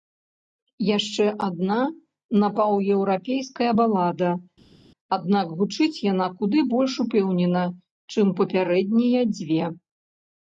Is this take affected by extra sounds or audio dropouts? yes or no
no